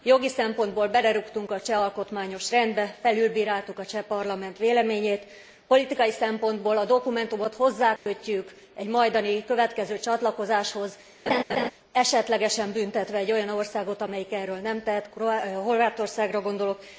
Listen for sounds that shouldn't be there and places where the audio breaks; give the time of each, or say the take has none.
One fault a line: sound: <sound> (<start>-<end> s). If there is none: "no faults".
sound: dropout (8.0-8.1 s)
sound: laugh (11.3-11.7 s)